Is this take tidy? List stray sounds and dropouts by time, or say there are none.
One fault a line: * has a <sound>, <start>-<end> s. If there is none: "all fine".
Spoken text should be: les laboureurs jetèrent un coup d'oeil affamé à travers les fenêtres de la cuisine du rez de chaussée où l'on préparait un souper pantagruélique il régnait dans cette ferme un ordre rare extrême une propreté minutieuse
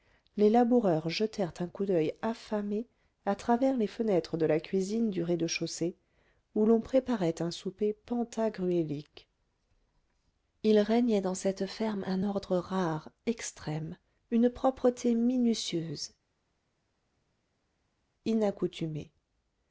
all fine